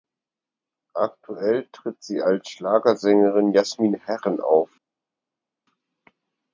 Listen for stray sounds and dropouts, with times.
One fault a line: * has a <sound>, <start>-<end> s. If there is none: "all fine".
all fine